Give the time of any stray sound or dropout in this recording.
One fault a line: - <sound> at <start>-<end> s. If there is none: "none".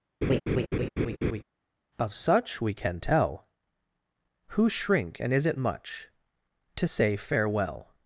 - laugh at 0.2-1.4 s